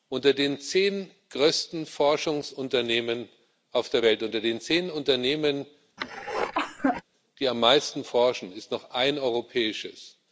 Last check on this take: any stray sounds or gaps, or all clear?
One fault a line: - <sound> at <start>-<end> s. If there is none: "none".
- cough at 6.0-7.0 s